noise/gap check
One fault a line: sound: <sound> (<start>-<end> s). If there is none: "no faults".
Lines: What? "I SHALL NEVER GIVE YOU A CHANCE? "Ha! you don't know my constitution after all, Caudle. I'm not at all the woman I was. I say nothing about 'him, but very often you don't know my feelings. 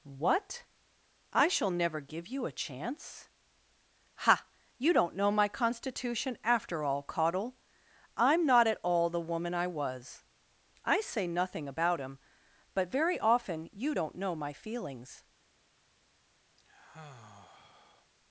sound: sigh (16.6-18.1 s)